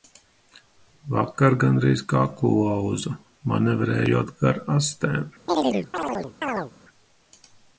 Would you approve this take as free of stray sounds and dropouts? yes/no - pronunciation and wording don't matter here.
no